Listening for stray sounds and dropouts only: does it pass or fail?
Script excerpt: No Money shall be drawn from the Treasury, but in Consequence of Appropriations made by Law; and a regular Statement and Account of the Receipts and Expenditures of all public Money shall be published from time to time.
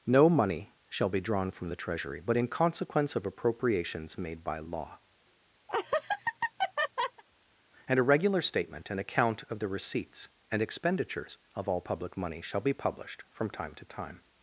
fail